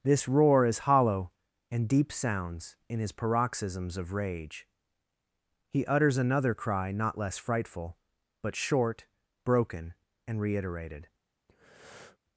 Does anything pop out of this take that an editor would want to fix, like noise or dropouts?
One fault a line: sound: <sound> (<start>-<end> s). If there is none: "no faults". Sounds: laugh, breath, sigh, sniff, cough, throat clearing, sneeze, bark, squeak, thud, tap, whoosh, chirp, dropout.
sound: breath (11.5-12.2 s)